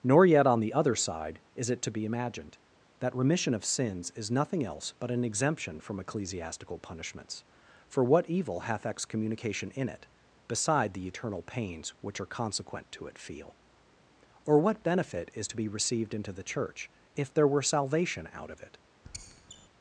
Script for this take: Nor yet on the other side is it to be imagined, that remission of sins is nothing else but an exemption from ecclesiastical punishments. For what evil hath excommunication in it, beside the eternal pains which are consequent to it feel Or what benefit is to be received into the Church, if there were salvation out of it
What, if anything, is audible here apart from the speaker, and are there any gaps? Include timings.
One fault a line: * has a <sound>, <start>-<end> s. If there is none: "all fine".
* has a squeak, 19.0-19.7 s